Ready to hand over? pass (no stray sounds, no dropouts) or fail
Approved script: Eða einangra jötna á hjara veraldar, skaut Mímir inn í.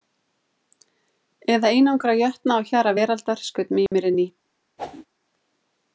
fail